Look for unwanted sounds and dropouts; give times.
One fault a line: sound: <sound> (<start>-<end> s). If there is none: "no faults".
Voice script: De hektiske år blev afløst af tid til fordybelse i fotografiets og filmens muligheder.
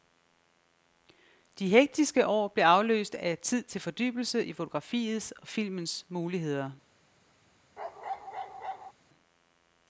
sound: bark (7.8-8.9 s)